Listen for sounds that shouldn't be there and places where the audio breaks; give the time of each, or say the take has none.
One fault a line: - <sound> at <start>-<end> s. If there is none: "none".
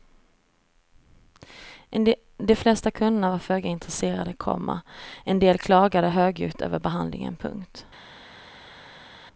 none